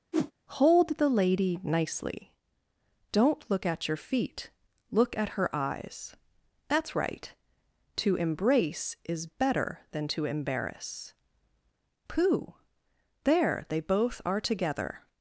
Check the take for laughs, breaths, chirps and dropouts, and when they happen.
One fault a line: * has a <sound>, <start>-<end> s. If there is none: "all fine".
* has a whoosh, 0.1-0.3 s